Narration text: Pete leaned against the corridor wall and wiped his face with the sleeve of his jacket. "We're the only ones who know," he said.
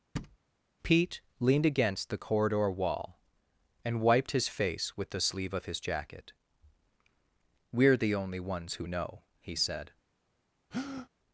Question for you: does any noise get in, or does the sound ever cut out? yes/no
yes